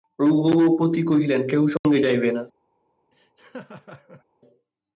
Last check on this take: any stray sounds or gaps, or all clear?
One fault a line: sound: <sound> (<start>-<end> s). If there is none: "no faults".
sound: dropout (1.8-1.8 s)
sound: laugh (3.1-4.2 s)